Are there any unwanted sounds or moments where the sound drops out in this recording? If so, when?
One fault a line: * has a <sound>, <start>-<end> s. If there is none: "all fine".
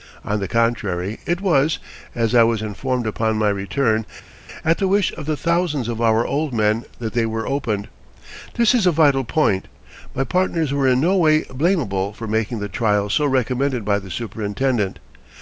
all fine